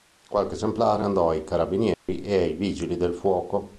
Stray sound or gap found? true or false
true